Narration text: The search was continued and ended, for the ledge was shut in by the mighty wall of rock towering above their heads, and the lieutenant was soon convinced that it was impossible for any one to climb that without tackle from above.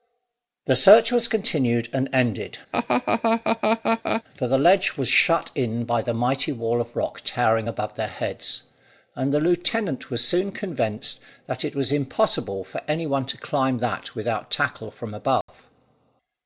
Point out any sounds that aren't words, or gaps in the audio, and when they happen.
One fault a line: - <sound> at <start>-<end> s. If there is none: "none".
- laugh at 2.7-4.2 s
- dropout at 15.4-15.5 s